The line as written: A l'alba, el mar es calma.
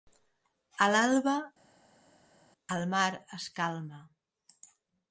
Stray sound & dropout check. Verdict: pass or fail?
pass